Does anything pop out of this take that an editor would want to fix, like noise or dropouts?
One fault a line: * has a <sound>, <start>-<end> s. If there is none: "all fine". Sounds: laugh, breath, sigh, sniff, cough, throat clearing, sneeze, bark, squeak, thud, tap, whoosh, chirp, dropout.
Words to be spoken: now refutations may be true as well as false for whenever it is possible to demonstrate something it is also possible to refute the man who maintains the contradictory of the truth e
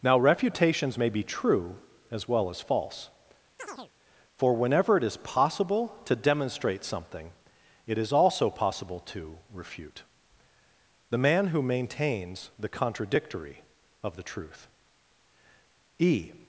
* has a chirp, 3.6-3.9 s